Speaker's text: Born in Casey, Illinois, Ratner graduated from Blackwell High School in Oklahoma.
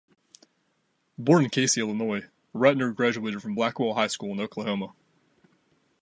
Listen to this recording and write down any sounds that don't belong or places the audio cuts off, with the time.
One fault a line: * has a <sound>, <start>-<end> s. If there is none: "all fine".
all fine